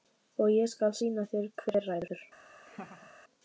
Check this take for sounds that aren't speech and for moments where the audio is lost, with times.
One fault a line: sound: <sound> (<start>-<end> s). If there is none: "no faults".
sound: laugh (2.6-3.1 s)